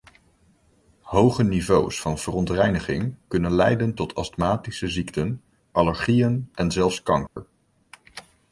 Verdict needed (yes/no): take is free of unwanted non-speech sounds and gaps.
no